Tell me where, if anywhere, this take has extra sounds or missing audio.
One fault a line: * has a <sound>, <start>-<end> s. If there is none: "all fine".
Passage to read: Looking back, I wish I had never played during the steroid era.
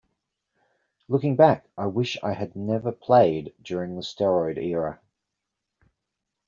all fine